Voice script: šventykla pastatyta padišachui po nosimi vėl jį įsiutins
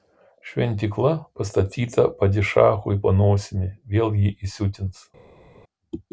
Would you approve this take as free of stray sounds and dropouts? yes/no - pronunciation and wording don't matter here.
yes